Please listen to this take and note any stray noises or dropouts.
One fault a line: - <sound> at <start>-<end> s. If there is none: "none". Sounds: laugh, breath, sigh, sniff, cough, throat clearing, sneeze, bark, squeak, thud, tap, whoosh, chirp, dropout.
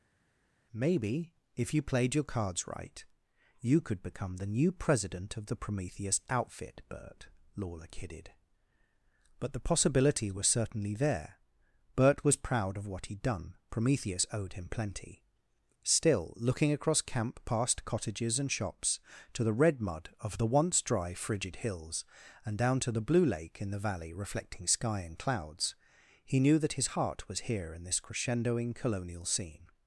none